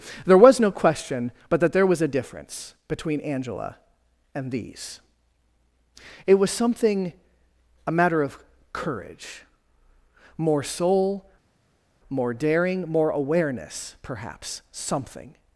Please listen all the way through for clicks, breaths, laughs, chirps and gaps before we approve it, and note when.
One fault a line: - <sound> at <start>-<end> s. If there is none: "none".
none